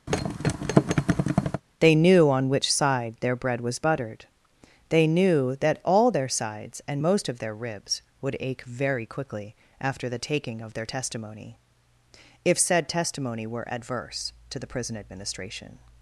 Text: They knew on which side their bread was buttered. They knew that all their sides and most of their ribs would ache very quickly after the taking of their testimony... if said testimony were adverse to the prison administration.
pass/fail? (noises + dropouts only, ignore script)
fail